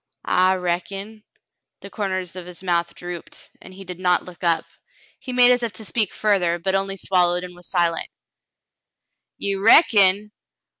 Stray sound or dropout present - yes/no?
no